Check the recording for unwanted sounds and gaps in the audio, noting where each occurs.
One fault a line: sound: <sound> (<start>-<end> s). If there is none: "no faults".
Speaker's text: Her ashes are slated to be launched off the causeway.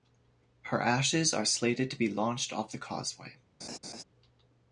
sound: laugh (3.6-4.0 s)